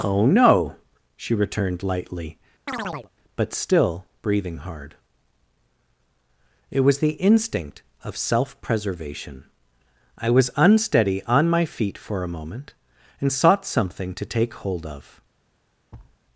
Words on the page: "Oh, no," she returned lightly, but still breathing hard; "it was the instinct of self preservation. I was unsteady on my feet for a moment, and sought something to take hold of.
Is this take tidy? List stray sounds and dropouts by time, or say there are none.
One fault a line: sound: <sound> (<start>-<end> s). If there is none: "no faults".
sound: chirp (2.7-3.1 s)
sound: thud (15.9-16.2 s)